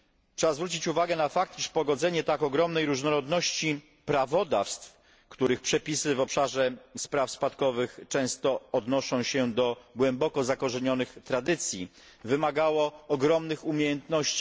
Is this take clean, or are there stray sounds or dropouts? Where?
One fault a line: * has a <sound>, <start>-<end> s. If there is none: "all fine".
all fine